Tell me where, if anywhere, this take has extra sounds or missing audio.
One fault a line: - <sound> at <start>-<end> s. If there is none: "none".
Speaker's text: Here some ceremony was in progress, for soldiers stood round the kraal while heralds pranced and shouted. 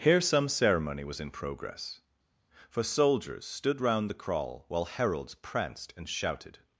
none